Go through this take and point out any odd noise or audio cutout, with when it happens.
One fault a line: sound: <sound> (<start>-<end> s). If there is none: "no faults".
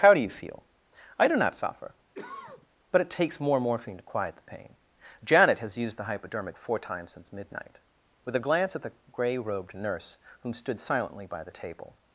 sound: cough (2.1-2.7 s)